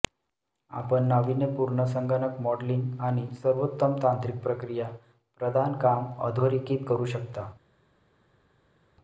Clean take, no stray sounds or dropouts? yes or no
yes